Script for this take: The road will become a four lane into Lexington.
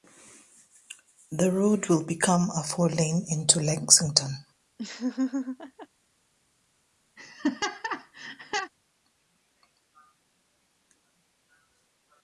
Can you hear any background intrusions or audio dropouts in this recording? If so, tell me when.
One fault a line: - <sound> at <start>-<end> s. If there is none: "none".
- laugh at 4.8-5.9 s
- laugh at 7.2-8.7 s